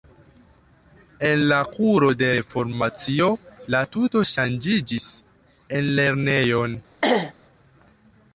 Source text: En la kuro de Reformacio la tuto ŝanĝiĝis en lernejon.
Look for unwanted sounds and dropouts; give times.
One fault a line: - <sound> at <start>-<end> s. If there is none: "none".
- throat clearing at 7.0-7.3 s